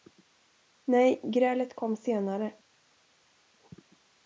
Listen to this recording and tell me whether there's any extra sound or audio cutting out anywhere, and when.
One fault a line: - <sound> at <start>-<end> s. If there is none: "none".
none